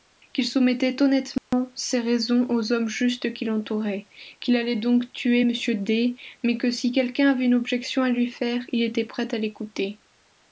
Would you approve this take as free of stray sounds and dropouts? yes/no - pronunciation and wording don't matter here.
no